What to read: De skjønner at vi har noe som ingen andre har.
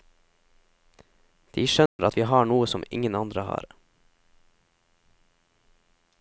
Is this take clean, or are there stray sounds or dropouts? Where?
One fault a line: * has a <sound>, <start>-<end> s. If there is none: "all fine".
* has a dropout, 1.9-2.0 s